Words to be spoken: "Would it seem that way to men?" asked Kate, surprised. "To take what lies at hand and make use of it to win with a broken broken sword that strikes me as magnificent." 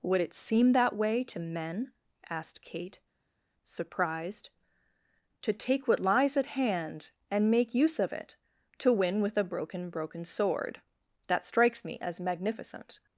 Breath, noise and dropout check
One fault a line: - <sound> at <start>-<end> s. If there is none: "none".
none